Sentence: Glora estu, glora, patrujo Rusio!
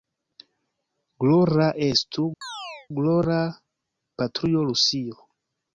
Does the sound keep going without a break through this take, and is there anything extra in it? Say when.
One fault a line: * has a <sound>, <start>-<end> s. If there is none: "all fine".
* has a chirp, 2.4-2.9 s